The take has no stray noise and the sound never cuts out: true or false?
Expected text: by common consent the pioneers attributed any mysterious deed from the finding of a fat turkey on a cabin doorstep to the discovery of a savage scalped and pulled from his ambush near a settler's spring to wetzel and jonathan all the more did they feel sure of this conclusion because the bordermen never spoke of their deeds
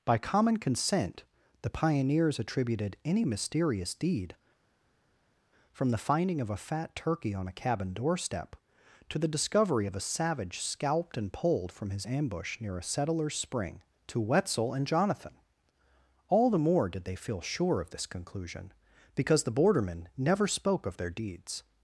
true